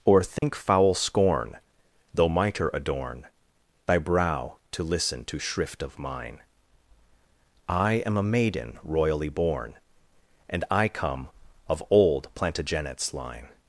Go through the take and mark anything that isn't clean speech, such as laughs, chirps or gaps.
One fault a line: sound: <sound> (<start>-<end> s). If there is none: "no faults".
sound: dropout (0.4-0.4 s)